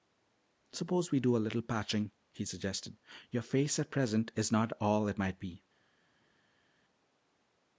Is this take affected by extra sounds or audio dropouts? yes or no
no